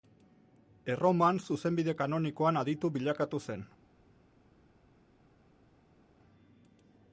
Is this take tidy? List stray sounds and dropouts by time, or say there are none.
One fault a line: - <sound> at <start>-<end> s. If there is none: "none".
none